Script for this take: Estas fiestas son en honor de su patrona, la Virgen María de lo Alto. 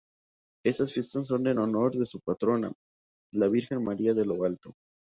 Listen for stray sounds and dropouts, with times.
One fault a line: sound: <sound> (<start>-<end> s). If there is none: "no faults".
no faults